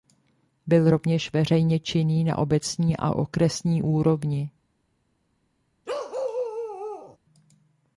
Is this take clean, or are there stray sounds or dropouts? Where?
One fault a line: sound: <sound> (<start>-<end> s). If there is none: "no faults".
sound: bark (5.9-7.2 s)